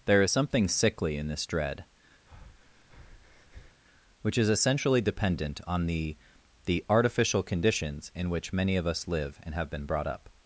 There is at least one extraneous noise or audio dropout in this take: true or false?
true